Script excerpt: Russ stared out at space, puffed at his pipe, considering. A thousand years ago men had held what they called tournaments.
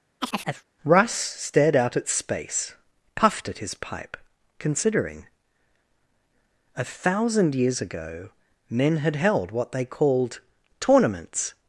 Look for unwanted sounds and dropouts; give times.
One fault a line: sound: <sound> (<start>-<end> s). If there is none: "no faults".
sound: chirp (0.2-0.7 s)